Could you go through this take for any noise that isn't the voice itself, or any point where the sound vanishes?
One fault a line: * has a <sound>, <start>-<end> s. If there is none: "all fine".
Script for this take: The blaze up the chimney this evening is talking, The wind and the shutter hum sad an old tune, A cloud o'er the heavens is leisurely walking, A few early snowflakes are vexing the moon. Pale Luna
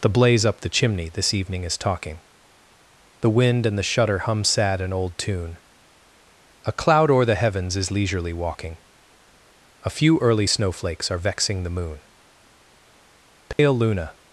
* has a dropout, 13.5-13.6 s